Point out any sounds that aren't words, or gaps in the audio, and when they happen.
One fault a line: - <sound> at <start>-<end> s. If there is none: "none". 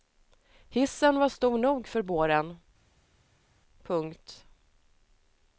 none